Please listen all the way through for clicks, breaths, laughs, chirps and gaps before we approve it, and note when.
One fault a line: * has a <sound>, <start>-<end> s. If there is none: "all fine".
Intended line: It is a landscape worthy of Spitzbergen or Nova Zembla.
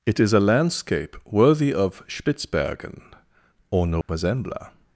* has a dropout, 4.0-4.1 s